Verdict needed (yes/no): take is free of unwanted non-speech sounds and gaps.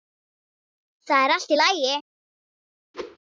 no